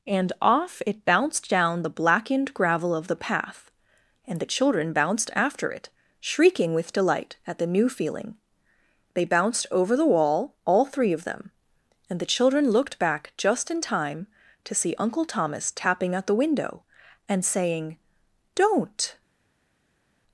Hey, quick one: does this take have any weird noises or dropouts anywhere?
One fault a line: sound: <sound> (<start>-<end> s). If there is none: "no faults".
no faults